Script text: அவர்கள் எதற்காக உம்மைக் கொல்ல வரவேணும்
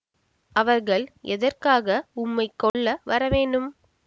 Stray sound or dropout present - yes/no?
yes